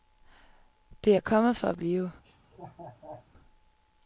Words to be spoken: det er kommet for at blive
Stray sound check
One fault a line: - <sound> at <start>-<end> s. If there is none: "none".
- laugh at 2.2-3.3 s